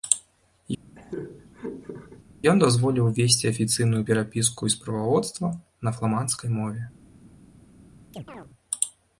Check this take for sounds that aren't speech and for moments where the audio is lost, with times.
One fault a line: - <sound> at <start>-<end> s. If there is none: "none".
- laugh at 1.0-2.2 s
- chirp at 8.1-8.5 s